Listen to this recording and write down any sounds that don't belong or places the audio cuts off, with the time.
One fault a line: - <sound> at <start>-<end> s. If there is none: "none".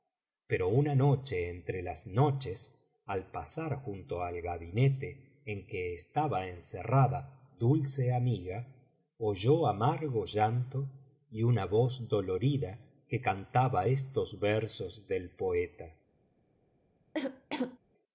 - cough at 17.1-17.8 s